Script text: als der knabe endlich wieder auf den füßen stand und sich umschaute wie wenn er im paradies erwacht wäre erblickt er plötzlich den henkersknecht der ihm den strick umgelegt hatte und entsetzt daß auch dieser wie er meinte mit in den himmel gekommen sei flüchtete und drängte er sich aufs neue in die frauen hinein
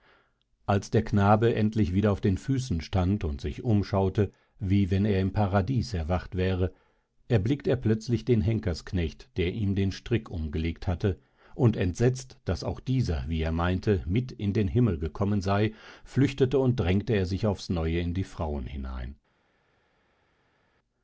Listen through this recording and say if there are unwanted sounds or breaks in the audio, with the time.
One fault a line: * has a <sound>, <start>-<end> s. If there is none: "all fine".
all fine